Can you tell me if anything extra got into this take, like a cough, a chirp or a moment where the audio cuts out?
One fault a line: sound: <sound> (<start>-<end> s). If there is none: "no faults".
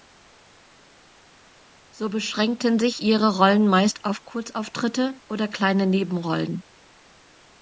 no faults